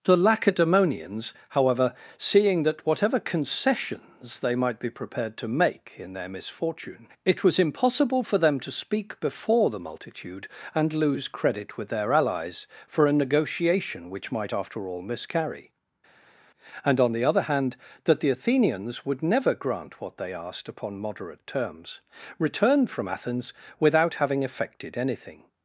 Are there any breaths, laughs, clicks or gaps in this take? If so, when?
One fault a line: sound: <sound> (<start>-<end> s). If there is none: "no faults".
no faults